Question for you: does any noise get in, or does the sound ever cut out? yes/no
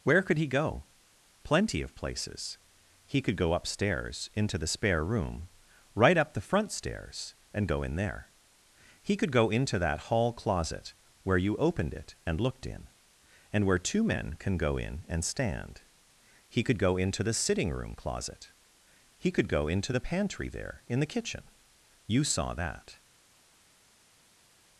no